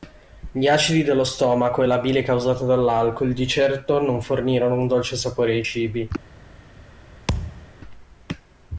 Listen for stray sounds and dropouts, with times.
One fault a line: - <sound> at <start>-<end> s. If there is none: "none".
- thud at 7.3-7.7 s